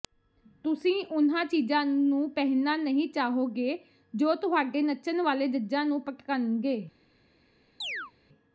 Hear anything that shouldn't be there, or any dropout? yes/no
yes